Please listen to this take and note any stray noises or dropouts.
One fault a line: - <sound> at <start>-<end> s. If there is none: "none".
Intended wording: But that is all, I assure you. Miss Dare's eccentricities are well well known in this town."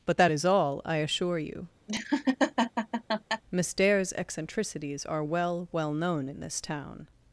- laugh at 1.9-3.4 s